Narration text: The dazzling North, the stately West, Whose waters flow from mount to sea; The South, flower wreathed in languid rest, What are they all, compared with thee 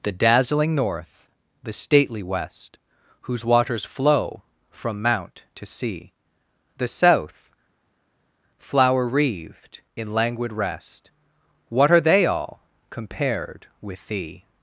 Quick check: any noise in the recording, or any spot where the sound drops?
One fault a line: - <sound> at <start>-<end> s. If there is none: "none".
none